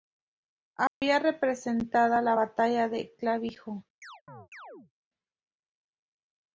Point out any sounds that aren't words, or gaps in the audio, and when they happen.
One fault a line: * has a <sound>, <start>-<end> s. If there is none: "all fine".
* has a dropout, 0.9-1.0 s
* has a chirp, 4.0-4.9 s